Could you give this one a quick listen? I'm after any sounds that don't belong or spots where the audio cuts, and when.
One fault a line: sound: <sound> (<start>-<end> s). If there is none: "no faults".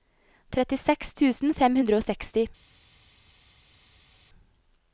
no faults